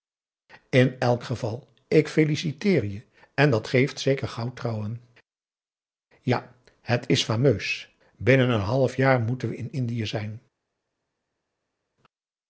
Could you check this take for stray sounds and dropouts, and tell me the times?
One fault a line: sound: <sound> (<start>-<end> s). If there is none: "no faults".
no faults